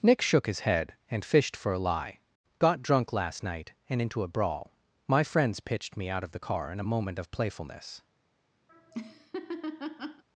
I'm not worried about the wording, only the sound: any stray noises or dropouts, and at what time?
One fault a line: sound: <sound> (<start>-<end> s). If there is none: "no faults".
sound: laugh (8.7-10.2 s)